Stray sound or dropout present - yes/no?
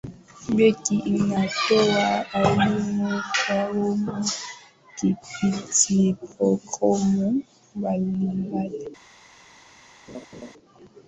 yes